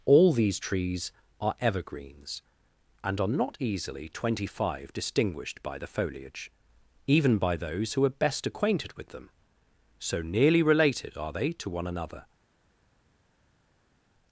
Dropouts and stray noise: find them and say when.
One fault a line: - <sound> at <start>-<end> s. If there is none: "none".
none